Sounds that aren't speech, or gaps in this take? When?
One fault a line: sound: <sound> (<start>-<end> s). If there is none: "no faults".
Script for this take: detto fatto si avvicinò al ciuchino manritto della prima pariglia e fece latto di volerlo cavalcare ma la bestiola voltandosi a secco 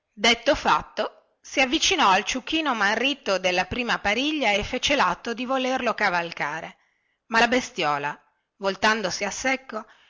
no faults